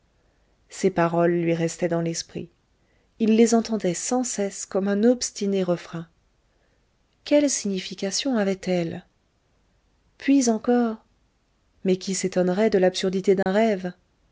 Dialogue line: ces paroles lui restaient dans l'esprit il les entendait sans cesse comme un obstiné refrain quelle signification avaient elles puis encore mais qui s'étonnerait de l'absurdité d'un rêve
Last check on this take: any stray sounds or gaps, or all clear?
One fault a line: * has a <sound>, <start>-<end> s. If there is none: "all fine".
* has a dropout, 13.4-13.5 s